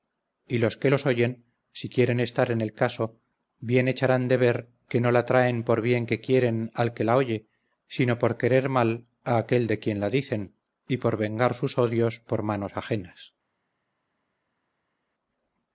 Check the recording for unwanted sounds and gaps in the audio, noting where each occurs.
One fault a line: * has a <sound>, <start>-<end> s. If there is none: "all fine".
all fine